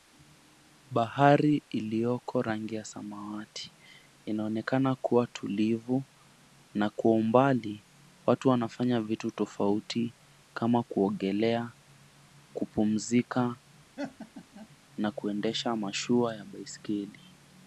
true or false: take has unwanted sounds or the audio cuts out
true